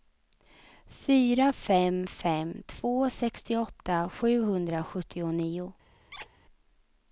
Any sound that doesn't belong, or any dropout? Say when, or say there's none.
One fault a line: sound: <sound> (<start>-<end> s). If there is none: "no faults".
sound: squeak (6.1-6.3 s)